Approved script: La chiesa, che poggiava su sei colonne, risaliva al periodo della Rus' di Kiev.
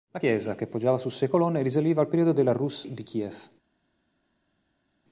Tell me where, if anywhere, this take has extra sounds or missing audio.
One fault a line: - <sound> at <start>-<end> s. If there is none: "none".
none